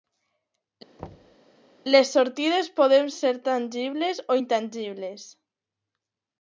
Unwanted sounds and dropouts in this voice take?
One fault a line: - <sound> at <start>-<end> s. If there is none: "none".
- thud at 1.0-1.4 s